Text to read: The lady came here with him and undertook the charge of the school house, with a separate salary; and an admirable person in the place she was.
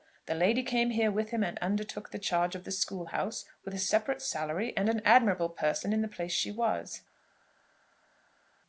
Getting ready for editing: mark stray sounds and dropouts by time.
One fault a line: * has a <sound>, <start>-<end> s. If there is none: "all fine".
all fine